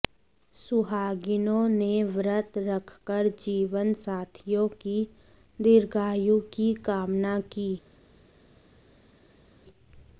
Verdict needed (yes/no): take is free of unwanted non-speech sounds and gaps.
yes